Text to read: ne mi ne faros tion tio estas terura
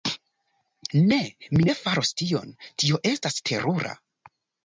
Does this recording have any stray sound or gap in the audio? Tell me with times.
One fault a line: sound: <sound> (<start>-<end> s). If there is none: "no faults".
no faults